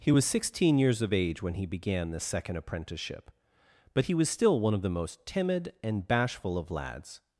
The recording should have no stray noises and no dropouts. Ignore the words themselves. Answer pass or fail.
pass